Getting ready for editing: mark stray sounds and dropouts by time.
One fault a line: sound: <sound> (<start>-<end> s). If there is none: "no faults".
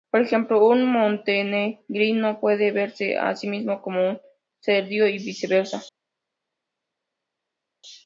no faults